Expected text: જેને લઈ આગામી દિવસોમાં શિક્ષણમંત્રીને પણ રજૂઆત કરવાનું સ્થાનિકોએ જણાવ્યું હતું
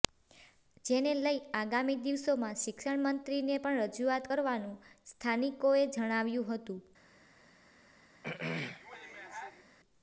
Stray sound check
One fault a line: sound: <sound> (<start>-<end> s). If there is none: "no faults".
sound: throat clearing (8.2-9.6 s)